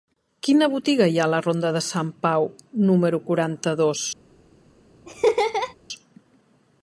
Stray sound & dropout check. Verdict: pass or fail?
fail